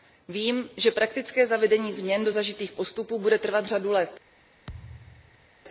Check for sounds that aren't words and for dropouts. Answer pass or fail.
fail